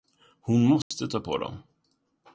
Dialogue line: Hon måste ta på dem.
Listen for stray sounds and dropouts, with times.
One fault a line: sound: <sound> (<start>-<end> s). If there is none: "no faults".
sound: dropout (0.8-0.9 s)